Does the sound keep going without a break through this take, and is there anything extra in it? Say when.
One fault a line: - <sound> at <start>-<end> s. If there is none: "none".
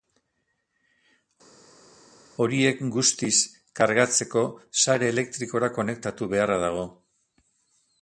none